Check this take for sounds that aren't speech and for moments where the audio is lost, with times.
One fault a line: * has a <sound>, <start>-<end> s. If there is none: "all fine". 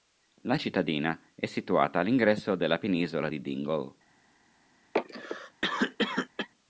* has a cough, 4.9-6.5 s